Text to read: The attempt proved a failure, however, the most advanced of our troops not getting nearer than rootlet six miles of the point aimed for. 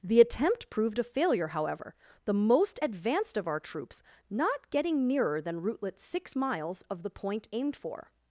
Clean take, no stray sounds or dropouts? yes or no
yes